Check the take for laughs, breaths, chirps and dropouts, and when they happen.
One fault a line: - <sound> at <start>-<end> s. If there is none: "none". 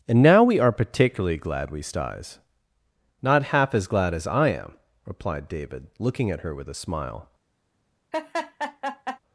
- laugh at 8.1-9.2 s